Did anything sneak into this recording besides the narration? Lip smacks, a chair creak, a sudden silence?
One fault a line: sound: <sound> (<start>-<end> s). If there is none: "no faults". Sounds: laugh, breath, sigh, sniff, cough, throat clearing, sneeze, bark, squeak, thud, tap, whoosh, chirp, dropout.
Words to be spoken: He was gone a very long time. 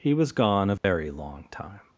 sound: dropout (0.8-0.8 s)